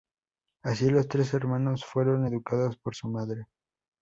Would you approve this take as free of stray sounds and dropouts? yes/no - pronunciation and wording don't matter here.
yes